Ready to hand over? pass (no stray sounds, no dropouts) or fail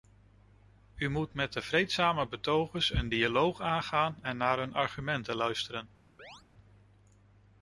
fail